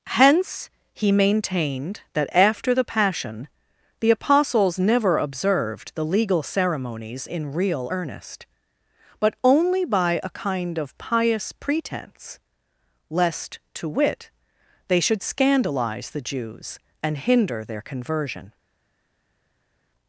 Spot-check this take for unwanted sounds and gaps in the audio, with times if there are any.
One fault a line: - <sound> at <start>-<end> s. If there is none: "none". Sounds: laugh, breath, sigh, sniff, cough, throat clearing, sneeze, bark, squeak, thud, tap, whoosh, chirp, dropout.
none